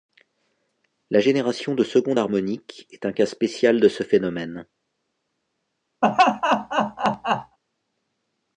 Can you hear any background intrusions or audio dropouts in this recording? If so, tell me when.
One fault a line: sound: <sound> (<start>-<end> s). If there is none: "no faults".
sound: laugh (6.0-7.6 s)